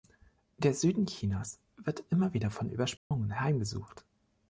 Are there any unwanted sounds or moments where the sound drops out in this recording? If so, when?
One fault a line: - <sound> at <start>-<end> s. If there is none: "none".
- dropout at 3.0-3.1 s